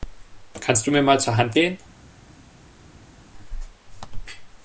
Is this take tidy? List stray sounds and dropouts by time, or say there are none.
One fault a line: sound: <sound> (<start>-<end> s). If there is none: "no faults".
no faults